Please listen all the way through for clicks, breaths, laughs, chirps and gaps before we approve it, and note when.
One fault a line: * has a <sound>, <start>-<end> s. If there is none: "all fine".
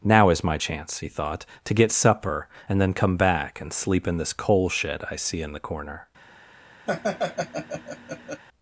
* has a laugh, 6.9-8.4 s